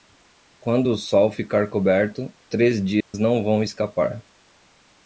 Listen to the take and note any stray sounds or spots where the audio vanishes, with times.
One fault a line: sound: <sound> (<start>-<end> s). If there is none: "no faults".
sound: dropout (3.0-3.1 s)